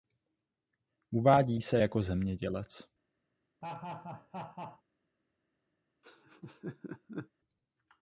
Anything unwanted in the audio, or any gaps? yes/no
yes